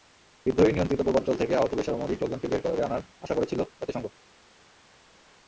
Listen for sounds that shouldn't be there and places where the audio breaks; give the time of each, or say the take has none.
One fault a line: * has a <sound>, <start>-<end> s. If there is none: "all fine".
all fine